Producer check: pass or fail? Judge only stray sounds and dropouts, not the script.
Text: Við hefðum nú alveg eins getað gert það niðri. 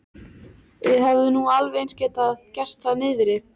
pass